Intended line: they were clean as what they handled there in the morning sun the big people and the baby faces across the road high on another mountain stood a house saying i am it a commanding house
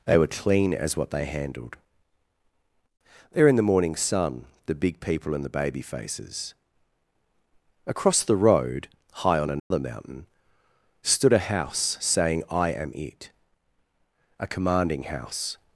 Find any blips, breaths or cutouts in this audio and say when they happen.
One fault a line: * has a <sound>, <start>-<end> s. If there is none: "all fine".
* has a dropout, 9.6-9.7 s